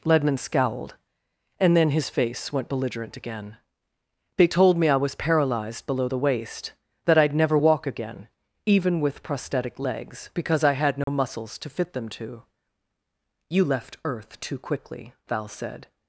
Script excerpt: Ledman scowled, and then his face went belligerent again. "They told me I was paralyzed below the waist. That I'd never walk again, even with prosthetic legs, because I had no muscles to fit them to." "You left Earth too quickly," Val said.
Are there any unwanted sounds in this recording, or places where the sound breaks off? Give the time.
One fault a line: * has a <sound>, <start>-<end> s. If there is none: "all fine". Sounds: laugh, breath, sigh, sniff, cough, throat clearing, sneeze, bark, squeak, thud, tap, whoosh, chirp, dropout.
* has a dropout, 11.0-11.1 s